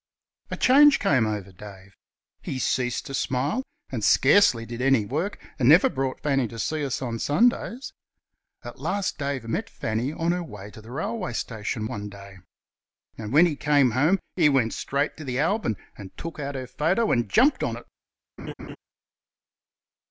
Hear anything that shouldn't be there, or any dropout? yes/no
yes